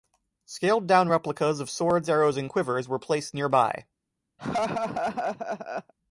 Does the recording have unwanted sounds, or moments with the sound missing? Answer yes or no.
yes